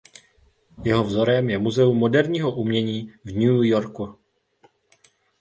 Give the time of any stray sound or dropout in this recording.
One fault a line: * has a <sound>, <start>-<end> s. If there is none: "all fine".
all fine